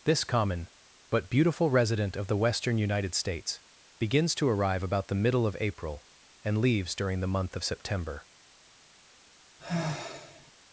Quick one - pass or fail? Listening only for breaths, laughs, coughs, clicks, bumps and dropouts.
fail